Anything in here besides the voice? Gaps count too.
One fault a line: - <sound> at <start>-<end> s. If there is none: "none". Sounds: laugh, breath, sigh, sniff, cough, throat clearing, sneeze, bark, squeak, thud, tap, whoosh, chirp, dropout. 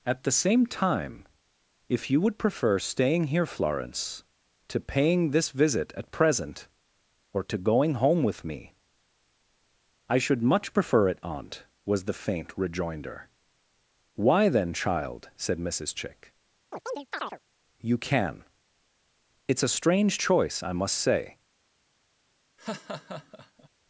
- chirp at 16.7-17.4 s
- laugh at 22.6-23.7 s